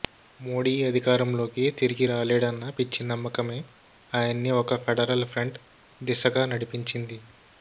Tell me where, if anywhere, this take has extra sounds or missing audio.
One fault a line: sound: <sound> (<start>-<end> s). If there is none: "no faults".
no faults